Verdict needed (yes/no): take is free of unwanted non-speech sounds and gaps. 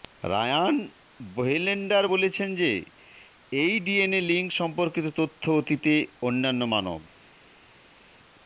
yes